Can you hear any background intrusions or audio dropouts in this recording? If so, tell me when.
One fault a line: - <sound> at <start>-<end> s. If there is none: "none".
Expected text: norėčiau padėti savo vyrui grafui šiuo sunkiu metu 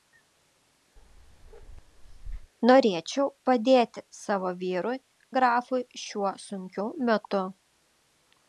- bark at 1.0-2.5 s